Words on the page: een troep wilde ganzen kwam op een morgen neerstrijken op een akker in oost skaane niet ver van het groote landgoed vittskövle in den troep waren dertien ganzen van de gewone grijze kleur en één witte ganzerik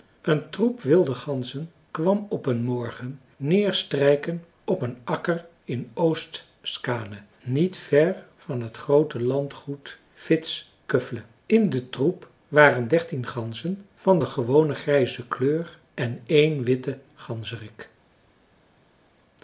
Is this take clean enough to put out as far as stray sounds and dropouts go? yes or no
yes